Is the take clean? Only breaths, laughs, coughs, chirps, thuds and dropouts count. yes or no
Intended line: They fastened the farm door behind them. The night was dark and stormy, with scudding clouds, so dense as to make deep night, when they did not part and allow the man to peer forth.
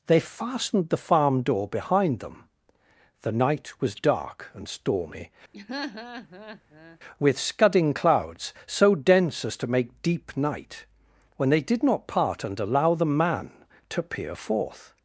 no